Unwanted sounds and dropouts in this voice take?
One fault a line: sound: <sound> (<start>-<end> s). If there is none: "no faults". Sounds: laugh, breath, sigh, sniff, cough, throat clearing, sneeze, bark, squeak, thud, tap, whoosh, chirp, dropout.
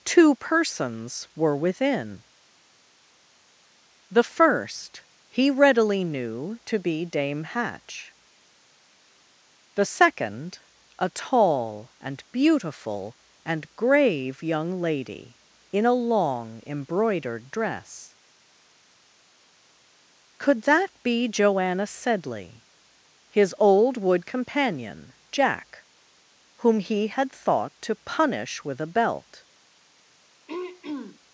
sound: throat clearing (30.5-31.2 s)